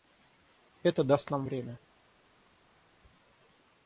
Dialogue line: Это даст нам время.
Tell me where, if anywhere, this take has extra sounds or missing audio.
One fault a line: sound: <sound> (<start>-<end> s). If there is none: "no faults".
no faults